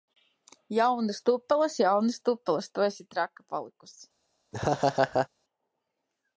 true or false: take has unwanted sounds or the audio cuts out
true